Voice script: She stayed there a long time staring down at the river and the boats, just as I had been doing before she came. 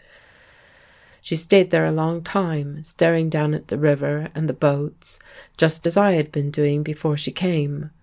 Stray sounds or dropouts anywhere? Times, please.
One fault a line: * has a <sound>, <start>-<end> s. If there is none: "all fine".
all fine